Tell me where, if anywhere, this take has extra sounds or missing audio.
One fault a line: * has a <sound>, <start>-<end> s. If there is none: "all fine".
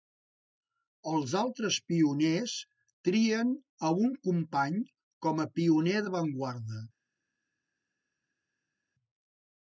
all fine